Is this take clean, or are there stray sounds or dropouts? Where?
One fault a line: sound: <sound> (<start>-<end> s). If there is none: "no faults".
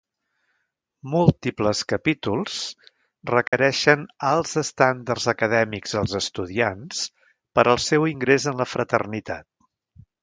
sound: dropout (3.5-3.5 s)